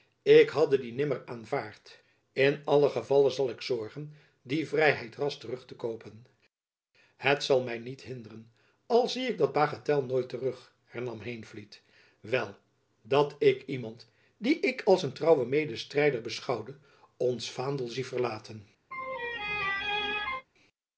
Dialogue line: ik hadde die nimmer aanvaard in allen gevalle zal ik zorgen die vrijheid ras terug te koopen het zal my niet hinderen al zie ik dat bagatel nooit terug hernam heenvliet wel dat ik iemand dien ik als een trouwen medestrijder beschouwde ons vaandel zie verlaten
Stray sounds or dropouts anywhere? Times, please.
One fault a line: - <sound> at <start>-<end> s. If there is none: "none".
- laugh at 18.9-20.5 s